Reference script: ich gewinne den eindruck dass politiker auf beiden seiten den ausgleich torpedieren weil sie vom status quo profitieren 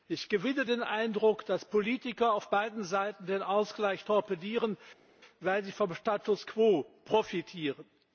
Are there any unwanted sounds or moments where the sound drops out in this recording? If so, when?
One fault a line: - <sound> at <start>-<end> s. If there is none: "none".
none